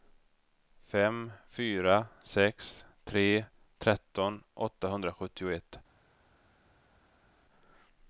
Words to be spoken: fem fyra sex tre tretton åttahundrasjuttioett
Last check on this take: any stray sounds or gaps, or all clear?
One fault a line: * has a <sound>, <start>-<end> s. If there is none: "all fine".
all fine